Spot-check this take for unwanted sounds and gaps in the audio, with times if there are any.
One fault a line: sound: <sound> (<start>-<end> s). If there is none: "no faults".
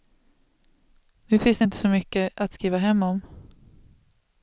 no faults